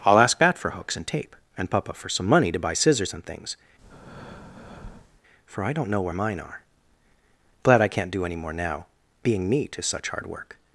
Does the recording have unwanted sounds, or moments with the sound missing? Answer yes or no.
yes